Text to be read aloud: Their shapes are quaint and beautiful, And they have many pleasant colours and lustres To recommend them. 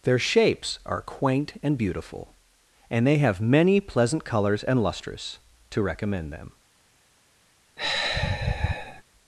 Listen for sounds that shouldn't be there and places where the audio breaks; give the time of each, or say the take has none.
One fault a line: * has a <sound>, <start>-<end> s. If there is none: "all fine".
* has a sigh, 7.8-9.0 s